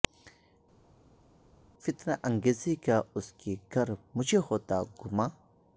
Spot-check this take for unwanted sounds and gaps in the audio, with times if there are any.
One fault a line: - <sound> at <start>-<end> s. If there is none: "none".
none